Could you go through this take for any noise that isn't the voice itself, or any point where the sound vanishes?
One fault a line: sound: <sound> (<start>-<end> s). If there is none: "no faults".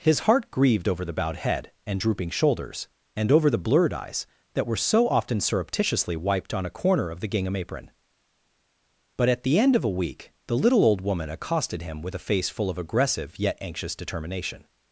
no faults